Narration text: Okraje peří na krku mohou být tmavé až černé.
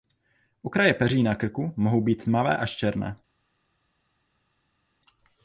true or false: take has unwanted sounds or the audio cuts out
false